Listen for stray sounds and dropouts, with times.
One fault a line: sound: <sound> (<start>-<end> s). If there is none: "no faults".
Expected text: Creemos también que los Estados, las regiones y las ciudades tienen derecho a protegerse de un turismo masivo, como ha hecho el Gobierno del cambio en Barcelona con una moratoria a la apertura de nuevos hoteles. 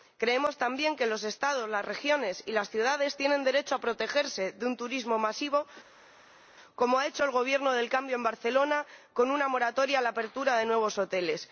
no faults